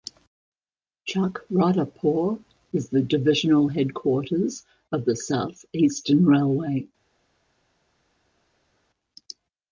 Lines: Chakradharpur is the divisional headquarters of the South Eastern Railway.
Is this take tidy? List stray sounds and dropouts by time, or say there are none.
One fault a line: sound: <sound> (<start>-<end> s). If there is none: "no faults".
no faults